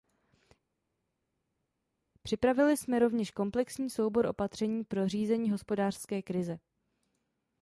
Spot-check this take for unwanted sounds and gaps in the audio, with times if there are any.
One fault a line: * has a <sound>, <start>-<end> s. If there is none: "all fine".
all fine